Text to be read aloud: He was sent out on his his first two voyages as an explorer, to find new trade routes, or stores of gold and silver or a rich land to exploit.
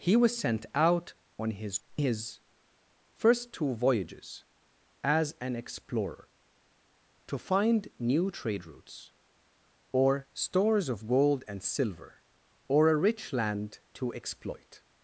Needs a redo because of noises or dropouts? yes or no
no